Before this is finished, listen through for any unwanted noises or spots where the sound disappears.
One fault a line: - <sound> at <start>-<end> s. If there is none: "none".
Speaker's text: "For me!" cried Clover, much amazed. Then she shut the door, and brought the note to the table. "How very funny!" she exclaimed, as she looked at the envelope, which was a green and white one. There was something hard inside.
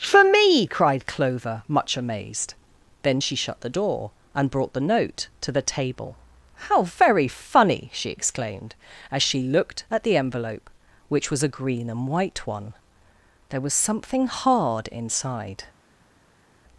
none